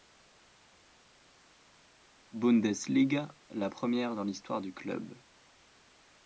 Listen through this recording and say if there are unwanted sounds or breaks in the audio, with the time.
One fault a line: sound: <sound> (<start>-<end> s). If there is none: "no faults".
no faults